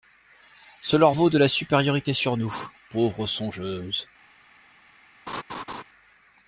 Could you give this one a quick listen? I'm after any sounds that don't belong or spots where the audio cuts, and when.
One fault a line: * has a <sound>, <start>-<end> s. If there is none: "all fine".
* has a laugh, 5.3-5.8 s